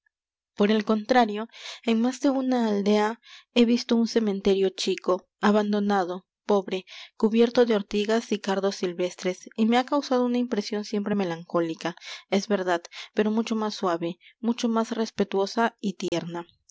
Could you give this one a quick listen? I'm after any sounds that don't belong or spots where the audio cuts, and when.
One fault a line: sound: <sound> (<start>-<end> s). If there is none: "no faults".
sound: dropout (16.1-16.1 s)